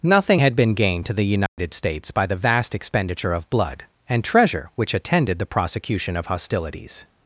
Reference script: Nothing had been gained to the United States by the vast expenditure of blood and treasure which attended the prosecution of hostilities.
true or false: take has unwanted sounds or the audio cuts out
true